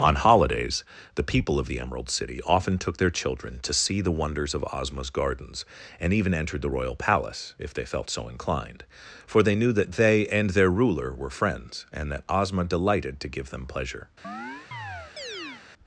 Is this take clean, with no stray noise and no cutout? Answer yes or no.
no